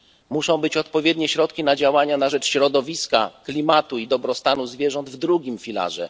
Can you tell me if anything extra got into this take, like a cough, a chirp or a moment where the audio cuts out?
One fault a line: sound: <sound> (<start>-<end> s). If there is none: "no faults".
no faults